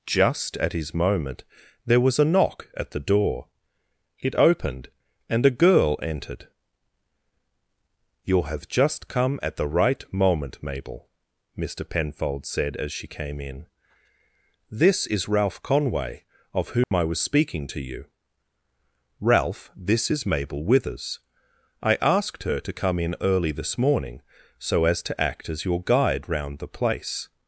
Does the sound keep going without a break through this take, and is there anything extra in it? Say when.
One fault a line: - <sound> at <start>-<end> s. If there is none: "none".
- dropout at 16.8-16.9 s